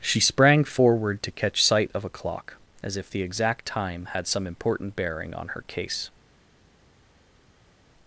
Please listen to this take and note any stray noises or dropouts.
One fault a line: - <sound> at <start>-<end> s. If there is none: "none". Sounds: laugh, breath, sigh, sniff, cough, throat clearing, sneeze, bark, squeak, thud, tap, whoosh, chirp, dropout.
none